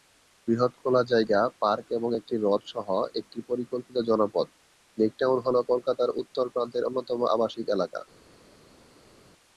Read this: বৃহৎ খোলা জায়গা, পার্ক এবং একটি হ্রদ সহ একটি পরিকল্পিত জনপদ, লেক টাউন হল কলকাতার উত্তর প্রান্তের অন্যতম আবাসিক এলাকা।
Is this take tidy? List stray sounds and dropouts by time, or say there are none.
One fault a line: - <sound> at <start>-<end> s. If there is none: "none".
none